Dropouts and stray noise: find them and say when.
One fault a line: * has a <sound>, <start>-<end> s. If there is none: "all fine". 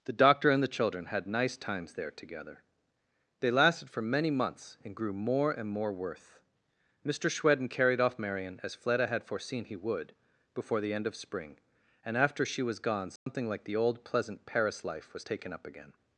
* has a dropout, 13.2-13.3 s